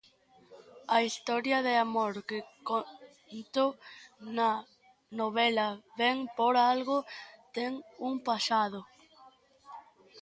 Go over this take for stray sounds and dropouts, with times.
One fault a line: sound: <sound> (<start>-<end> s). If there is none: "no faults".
no faults